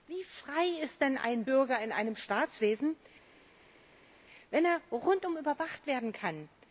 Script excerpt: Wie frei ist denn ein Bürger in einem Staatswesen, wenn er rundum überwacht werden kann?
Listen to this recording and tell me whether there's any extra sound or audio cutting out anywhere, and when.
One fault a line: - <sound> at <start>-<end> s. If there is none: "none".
none